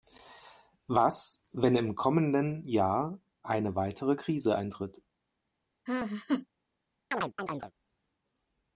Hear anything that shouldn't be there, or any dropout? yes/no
yes